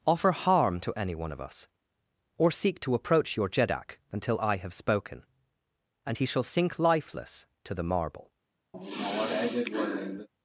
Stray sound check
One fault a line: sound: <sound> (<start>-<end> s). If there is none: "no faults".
sound: sigh (8.7-10.3 s)